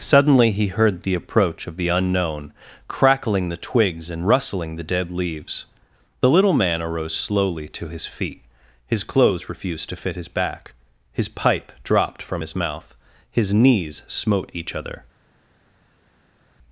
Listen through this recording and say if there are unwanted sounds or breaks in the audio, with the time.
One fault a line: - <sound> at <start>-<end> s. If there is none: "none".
none